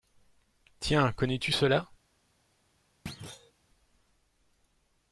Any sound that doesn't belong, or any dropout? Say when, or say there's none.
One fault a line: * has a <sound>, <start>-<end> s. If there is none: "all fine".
* has a thud, 3.1-3.5 s